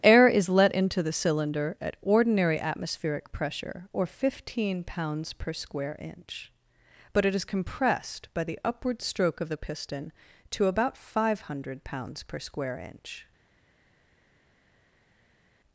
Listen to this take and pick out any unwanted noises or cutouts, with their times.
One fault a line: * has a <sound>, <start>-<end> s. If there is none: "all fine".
all fine